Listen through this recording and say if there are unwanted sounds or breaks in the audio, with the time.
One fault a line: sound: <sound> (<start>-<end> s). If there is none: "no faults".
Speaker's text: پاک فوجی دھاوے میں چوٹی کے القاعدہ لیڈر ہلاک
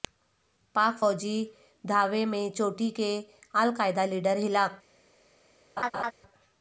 sound: laugh (5.8-6.1 s)